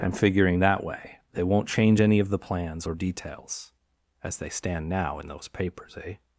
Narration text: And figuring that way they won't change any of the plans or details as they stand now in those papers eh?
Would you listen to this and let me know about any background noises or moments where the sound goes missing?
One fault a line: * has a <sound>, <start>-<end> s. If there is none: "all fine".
all fine